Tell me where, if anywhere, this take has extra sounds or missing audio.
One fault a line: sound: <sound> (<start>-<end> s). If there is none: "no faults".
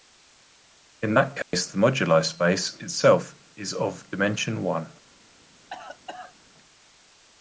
sound: dropout (1.4-1.5 s)
sound: cough (5.7-6.3 s)